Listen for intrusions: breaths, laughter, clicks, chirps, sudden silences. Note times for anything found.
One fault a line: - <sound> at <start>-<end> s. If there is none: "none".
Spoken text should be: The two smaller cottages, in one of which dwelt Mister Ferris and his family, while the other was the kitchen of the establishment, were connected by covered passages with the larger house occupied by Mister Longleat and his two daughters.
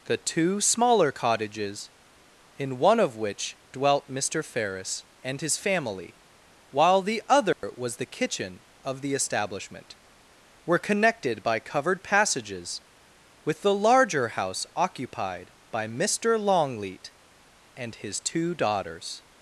- dropout at 7.5-7.6 s